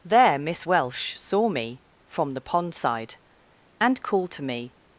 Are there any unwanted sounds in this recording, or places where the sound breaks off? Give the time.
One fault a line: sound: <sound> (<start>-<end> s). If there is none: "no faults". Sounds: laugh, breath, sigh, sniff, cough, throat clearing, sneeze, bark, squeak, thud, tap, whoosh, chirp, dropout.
no faults